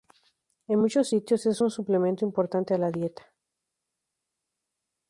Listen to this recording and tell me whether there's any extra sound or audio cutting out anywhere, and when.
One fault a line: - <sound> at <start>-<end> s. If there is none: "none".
none